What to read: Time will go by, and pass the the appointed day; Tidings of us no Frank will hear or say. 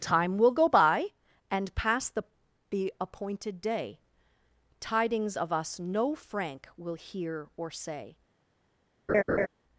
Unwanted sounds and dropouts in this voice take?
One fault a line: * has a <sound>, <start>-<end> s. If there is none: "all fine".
* has a laugh, 9.1-9.5 s